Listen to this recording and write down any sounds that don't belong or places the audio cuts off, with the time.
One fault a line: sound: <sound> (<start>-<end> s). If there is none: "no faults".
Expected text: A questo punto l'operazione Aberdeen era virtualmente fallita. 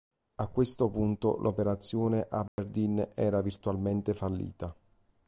sound: dropout (2.5-2.6 s)